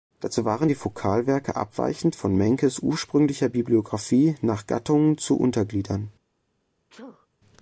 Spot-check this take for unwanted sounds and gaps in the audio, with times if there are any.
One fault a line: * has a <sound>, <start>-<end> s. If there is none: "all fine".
* has a sneeze, 6.9-7.3 s